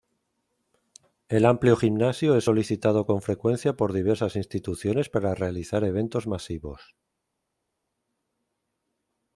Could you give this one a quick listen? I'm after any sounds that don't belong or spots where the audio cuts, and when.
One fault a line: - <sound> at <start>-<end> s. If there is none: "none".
none